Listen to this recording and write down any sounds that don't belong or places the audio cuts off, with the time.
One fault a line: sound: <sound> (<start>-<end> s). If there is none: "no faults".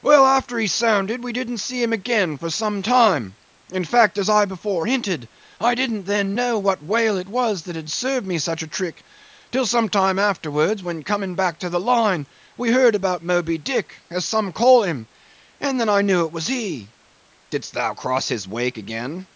no faults